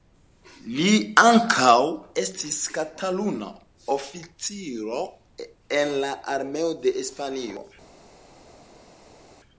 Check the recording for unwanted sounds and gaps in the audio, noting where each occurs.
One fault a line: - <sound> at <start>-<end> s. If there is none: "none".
none